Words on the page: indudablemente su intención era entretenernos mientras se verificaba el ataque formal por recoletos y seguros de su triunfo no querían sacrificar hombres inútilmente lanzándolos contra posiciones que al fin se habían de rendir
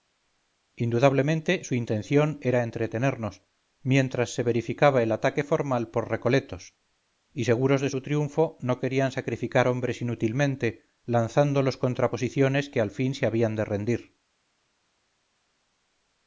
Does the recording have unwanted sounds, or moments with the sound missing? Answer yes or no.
no